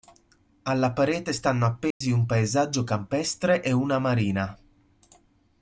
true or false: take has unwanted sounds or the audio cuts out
true